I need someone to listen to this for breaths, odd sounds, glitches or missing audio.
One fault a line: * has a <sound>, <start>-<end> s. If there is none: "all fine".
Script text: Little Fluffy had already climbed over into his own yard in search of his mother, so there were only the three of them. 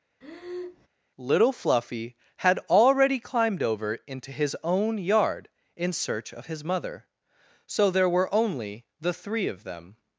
* has a breath, 0.2-0.9 s